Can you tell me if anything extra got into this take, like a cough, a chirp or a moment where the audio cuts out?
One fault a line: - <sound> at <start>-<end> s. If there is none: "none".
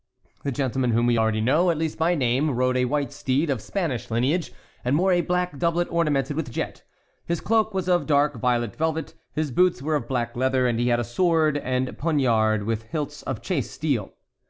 none